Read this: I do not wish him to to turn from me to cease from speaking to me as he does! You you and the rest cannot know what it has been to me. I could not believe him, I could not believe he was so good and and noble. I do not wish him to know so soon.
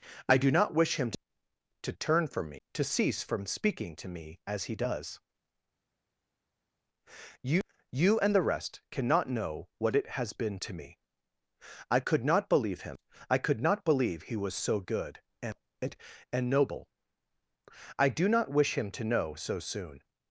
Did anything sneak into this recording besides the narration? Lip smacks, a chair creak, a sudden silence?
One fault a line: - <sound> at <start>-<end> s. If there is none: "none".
none